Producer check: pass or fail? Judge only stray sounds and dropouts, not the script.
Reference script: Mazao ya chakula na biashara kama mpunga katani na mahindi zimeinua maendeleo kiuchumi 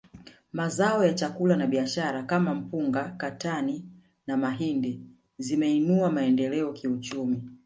pass